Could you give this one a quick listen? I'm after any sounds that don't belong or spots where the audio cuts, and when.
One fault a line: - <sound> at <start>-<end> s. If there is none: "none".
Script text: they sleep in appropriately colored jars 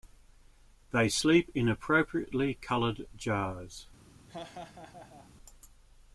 - laugh at 4.3-5.3 s